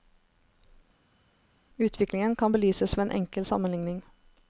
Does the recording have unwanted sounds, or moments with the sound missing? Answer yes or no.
no